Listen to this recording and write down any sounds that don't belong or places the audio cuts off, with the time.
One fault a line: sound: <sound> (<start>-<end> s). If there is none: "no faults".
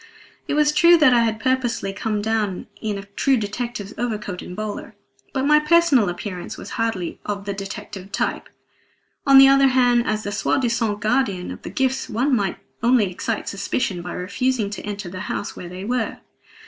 no faults